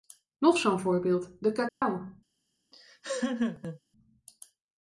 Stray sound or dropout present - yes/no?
yes